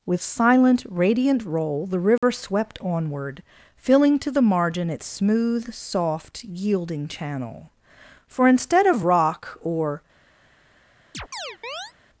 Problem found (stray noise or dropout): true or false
true